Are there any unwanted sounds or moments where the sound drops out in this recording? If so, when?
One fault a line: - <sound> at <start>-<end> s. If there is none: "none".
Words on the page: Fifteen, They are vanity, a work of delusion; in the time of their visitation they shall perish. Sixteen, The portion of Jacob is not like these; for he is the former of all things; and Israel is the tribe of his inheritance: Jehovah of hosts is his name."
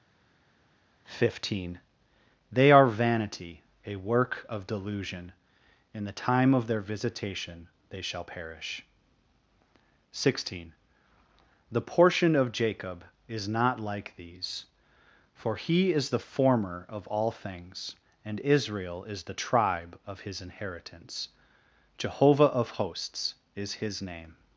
none